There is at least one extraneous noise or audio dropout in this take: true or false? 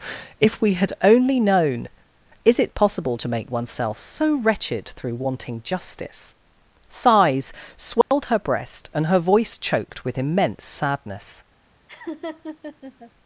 true